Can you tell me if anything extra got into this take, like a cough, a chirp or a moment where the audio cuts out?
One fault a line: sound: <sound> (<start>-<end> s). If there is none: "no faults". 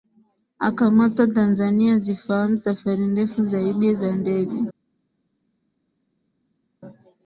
no faults